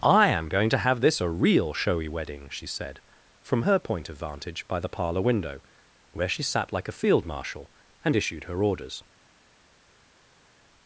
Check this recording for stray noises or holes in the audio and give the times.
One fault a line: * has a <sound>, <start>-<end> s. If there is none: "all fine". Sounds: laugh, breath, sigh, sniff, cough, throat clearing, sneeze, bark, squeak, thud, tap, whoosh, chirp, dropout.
all fine